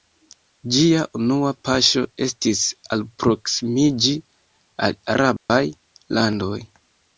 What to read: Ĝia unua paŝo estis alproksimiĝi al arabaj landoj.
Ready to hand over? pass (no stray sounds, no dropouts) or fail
fail